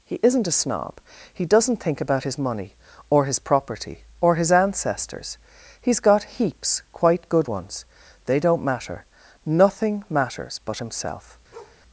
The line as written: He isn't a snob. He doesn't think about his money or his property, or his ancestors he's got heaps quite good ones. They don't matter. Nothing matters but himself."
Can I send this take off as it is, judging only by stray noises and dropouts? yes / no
no